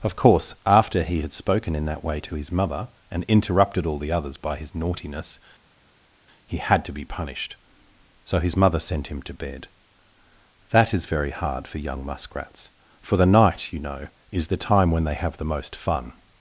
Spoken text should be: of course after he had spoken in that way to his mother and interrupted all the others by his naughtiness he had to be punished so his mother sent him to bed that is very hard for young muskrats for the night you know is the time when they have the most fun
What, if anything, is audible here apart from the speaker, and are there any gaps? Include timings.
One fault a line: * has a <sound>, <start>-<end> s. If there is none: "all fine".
all fine